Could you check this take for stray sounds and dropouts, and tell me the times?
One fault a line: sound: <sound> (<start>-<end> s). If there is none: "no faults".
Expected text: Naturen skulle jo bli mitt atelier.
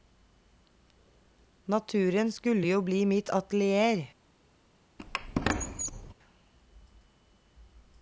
sound: squeak (5.0-6.1 s)